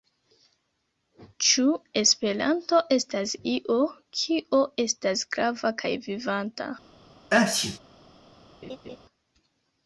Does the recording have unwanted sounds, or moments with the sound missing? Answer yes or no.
yes